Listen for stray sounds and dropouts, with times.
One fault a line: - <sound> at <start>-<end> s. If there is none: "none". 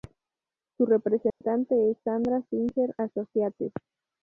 - dropout at 1.3-1.4 s